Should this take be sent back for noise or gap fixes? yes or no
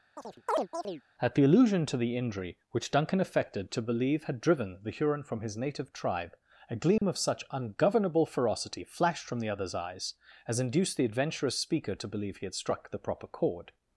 yes